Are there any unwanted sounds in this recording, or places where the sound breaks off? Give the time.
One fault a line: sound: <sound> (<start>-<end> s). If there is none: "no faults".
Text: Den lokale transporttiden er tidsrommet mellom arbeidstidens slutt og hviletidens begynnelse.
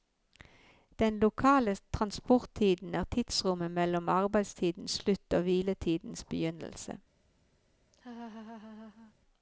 sound: laugh (7.9-9.1 s)